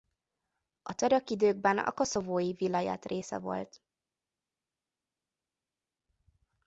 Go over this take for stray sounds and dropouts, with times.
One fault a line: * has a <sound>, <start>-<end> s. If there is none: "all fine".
all fine